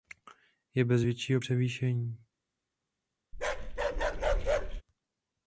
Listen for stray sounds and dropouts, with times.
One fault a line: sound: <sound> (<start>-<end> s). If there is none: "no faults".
sound: bark (3.3-4.8 s)